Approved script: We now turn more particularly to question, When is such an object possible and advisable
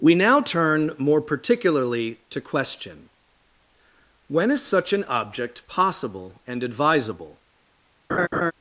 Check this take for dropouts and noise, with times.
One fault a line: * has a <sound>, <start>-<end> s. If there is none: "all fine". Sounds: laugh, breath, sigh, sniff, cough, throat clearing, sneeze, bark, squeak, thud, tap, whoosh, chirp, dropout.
* has a laugh, 8.1-8.5 s